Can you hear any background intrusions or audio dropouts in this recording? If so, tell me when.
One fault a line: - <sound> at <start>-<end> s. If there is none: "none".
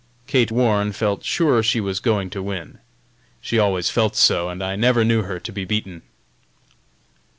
none